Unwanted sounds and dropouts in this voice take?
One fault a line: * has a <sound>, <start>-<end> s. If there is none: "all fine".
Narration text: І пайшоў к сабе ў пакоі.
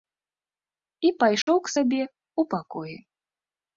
* has a dropout, 1.4-1.5 s